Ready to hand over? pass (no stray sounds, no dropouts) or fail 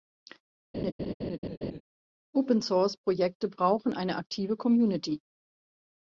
fail